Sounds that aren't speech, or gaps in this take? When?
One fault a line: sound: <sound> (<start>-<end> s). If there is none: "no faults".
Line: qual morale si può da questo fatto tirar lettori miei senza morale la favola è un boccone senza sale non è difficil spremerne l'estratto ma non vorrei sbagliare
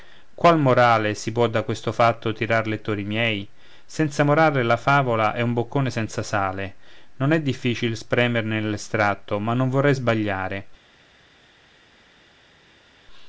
no faults